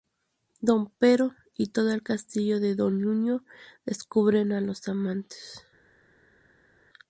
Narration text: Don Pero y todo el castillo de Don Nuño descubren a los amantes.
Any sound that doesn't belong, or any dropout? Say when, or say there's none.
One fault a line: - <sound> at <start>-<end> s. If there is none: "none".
none